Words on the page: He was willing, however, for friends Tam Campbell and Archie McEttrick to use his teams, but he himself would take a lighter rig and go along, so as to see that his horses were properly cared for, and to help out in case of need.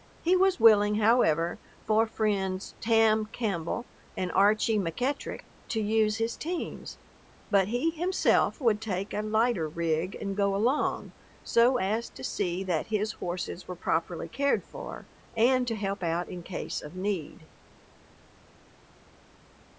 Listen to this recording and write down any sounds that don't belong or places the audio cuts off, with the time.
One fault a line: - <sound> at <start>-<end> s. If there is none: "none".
none